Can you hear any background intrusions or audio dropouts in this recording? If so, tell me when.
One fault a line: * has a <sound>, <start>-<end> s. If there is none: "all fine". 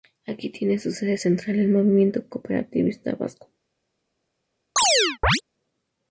* has a chirp, 4.8-5.4 s